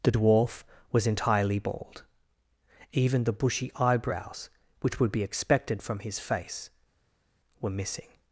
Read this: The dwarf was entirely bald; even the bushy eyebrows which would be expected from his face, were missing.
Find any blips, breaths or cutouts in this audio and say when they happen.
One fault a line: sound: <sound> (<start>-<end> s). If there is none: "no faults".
no faults